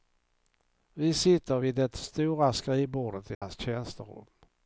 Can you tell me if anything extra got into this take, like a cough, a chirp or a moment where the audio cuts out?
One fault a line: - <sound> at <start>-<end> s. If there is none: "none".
- dropout at 3.3-3.4 s